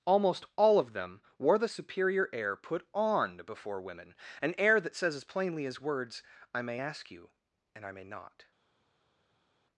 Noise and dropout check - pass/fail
pass